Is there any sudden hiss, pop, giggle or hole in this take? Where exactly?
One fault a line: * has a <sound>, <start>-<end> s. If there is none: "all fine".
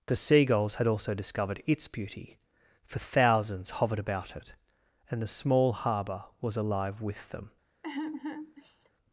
* has a sigh, 7.8-8.9 s